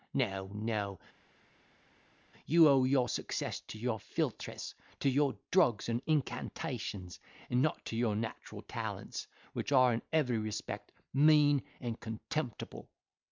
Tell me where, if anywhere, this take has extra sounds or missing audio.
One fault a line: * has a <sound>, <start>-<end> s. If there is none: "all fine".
all fine